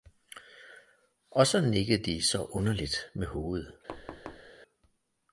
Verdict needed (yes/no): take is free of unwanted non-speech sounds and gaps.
no